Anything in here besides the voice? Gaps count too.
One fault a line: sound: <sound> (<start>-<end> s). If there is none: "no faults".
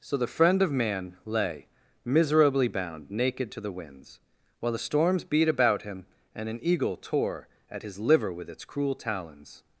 no faults